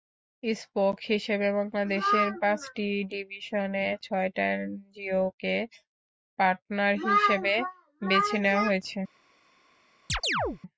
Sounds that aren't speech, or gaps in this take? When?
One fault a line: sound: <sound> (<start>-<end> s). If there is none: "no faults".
sound: chirp (10.1-10.6 s)